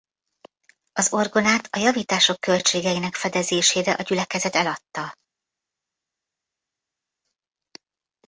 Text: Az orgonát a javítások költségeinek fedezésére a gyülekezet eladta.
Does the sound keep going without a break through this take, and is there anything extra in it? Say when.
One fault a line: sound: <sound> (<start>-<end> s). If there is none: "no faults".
no faults